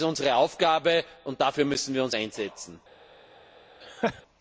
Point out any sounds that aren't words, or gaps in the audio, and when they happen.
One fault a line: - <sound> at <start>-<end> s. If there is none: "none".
- laugh at 3.8-4.2 s